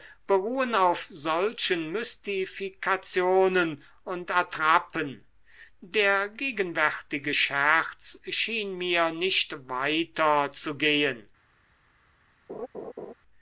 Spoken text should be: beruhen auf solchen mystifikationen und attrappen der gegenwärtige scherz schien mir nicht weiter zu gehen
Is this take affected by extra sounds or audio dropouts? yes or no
yes